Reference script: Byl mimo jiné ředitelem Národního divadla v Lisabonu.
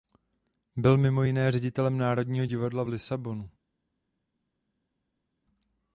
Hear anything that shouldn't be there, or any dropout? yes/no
no